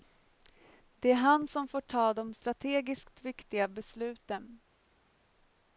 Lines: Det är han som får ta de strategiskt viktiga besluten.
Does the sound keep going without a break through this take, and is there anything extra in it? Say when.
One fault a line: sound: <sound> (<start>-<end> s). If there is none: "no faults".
no faults